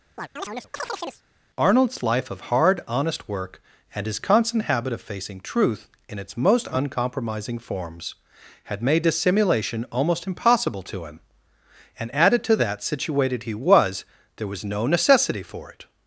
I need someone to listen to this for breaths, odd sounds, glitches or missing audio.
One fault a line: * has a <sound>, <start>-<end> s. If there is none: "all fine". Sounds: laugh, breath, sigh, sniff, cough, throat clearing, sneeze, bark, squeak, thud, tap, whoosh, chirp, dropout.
* has a chirp, 0.2-1.2 s